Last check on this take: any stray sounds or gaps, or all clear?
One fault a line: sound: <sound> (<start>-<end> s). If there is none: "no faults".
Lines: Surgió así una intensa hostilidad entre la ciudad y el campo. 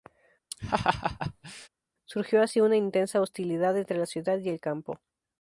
sound: laugh (0.5-1.7 s)